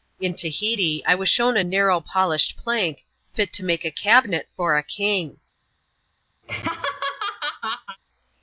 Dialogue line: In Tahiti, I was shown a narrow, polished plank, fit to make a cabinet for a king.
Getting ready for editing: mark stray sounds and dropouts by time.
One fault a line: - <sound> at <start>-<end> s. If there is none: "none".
- laugh at 6.4-8.0 s